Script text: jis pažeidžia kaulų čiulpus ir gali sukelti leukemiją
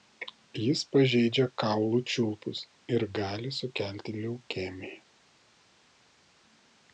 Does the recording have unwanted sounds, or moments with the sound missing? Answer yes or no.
no